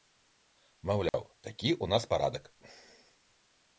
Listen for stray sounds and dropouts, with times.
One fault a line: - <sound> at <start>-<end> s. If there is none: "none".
- dropout at 1.1-1.1 s